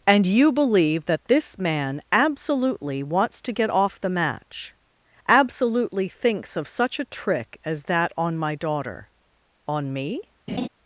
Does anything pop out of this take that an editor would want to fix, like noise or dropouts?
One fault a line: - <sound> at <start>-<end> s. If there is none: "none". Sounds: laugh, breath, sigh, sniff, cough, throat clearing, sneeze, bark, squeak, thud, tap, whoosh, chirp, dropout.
- laugh at 10.5-10.7 s